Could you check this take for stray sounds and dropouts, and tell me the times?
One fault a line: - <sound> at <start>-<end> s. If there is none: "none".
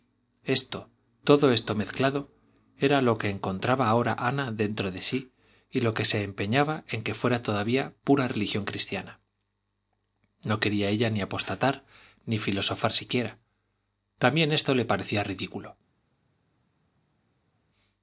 none